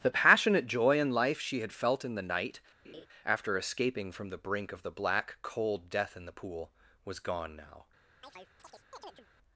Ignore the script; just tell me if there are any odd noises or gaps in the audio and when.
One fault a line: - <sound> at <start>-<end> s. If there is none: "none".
- laugh at 2.8-3.1 s
- chirp at 8.2-9.3 s